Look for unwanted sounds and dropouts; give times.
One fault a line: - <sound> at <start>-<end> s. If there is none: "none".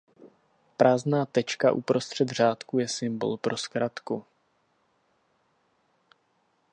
none